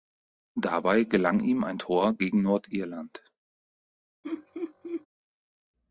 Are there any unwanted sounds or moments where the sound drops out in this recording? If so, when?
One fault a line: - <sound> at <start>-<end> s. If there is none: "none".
- laugh at 4.2-5.1 s